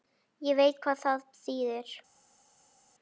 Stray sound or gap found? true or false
false